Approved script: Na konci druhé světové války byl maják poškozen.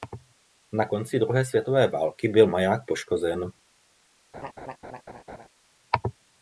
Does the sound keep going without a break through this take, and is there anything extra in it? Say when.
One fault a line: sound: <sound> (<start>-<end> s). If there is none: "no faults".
sound: laugh (4.3-5.5 s)